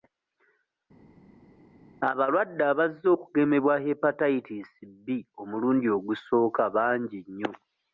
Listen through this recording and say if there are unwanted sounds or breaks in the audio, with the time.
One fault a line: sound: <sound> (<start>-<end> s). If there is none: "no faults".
no faults